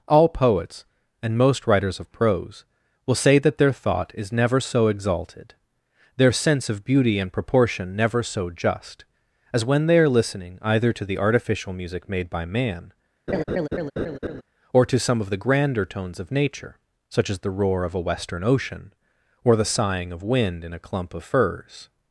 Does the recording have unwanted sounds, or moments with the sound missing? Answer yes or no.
yes